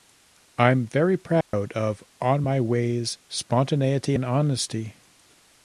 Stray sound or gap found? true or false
true